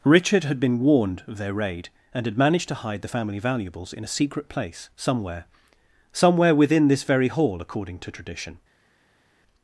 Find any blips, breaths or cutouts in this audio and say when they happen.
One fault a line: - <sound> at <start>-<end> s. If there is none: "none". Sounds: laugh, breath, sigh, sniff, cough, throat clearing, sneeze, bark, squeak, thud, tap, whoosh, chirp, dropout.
none